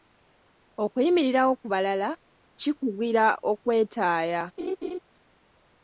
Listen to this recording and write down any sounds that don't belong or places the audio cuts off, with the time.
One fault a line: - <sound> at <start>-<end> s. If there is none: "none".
- laugh at 4.6-5.0 s